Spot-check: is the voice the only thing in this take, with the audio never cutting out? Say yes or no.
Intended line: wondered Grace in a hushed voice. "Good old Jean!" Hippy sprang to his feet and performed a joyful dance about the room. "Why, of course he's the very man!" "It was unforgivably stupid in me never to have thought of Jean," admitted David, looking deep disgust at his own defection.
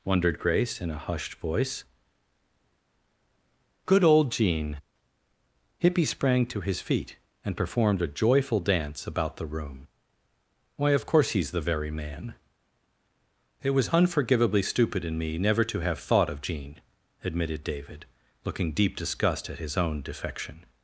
yes